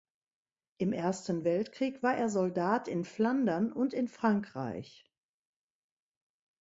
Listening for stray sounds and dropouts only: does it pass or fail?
pass